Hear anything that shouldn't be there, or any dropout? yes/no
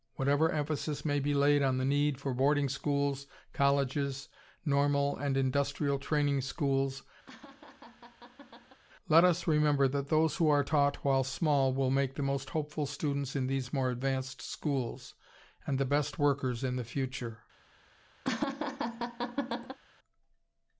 yes